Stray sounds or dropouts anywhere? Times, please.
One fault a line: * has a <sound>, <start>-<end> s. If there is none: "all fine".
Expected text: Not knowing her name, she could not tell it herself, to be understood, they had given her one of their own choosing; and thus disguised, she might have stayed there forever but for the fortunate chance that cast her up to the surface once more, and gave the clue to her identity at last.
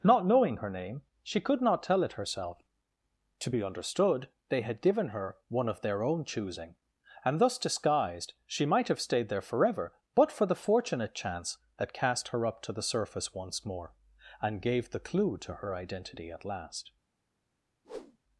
* has a whoosh, 17.8-18.2 s